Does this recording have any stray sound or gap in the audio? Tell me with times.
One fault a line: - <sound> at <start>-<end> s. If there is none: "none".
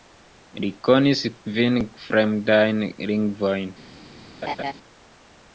- laugh at 4.4-4.7 s